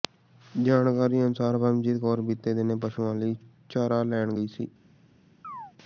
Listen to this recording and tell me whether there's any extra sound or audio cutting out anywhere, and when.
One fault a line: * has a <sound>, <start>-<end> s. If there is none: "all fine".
* has a chirp, 5.4-5.7 s